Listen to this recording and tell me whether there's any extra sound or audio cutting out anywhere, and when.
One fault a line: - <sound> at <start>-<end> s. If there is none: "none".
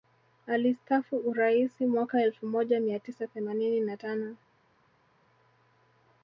none